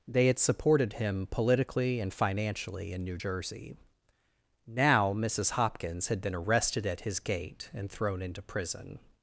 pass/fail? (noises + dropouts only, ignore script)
pass